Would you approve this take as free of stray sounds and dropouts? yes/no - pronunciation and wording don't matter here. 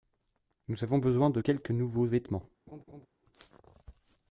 no